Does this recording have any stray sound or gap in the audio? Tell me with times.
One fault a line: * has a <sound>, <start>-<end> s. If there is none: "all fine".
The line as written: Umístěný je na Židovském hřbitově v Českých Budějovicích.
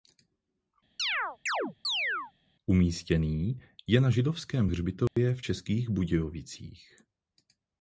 * has a chirp, 1.0-2.3 s
* has a dropout, 5.1-5.2 s